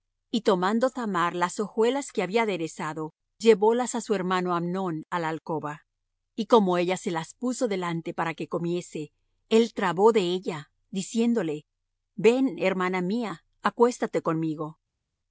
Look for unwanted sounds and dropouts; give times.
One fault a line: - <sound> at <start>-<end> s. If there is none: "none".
none